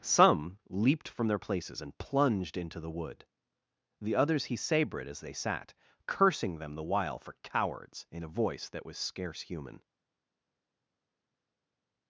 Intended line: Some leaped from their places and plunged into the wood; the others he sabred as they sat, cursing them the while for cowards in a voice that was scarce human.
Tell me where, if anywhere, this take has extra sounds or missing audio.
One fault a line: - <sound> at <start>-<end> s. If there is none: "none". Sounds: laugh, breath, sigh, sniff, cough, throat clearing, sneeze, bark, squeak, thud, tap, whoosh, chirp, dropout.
none